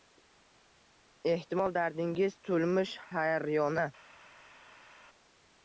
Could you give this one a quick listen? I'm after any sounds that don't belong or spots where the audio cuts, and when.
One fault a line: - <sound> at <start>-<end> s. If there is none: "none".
none